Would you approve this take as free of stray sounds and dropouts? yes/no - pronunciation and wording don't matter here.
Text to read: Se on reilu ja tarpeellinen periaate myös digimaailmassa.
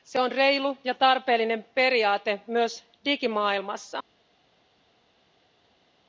yes